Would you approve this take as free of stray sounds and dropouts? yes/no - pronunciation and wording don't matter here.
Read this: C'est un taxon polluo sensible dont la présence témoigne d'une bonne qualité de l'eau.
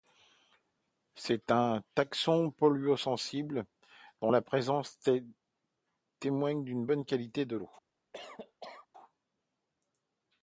no